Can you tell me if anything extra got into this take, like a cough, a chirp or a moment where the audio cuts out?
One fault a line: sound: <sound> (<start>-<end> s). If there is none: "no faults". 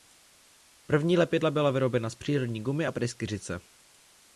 no faults